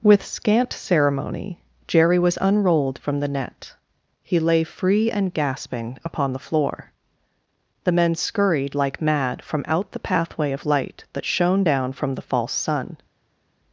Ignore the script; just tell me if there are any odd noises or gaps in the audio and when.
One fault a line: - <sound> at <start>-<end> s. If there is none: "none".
none